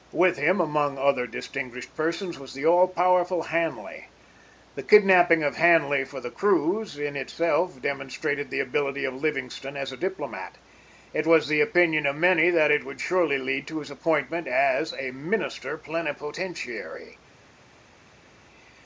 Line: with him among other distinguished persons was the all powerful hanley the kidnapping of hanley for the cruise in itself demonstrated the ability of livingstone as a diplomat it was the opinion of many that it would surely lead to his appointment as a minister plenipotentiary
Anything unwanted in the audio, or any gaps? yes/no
no